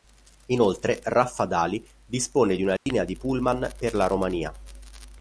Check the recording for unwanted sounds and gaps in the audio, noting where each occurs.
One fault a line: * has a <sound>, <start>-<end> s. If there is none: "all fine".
* has a dropout, 2.8-2.9 s